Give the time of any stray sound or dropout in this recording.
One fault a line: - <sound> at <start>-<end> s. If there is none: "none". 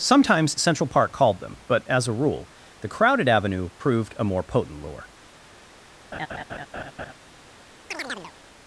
- laugh at 6.1-7.1 s
- chirp at 7.9-8.3 s